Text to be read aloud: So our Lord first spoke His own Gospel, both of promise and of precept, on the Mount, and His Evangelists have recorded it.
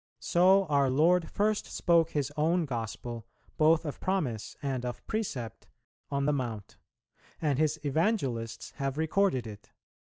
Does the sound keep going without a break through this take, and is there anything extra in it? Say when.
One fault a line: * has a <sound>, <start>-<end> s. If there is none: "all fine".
all fine